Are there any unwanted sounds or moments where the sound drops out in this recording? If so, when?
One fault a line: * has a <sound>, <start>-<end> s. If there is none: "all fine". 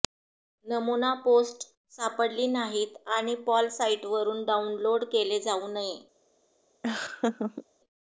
* has a laugh, 6.8-7.7 s